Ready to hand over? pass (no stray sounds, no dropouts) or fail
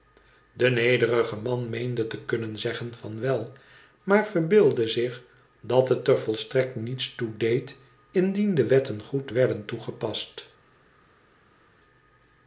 pass